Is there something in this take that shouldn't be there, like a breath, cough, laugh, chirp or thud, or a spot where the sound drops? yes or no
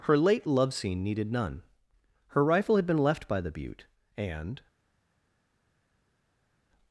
no